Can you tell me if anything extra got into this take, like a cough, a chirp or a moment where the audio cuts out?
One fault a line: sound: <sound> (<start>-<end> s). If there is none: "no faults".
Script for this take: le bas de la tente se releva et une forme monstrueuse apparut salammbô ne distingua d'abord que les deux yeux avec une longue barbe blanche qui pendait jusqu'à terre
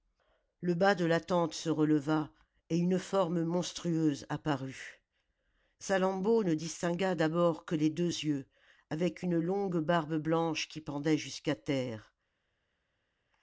no faults